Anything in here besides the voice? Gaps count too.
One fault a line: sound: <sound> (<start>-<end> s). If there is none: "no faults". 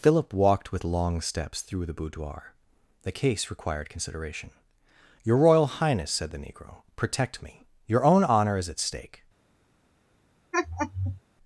sound: laugh (10.5-11.2 s)